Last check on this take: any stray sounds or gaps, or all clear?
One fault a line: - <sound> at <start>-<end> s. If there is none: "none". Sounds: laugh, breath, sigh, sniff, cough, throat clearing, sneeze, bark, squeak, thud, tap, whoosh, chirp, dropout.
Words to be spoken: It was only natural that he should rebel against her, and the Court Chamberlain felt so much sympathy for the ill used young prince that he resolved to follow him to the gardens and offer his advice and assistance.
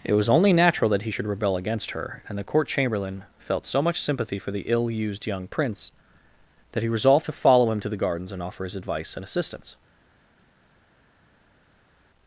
none